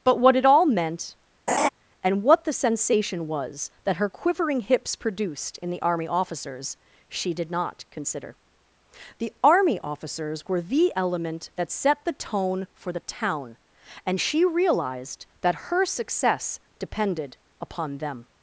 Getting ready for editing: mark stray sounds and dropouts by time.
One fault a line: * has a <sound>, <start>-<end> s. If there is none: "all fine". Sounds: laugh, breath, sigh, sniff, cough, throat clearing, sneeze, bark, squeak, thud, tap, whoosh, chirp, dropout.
* has a laugh, 1.5-1.7 s